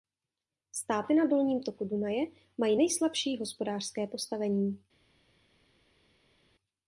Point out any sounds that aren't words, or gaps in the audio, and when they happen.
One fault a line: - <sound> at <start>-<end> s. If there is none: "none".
none